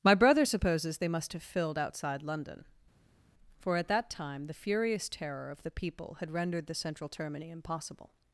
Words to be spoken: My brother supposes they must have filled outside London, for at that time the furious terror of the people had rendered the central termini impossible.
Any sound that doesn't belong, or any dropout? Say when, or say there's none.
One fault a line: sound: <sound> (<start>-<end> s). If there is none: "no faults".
no faults